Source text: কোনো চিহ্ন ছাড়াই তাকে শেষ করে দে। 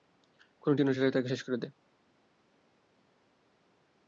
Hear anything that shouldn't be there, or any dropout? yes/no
no